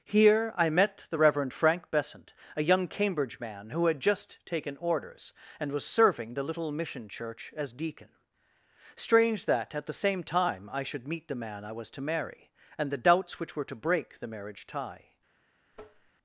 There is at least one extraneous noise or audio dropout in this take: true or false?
true